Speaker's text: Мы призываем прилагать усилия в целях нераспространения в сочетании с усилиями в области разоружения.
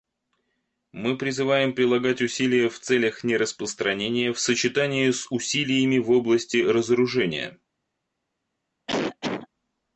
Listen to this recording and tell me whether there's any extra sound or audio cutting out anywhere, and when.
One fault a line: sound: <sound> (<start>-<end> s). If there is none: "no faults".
sound: cough (8.9-9.5 s)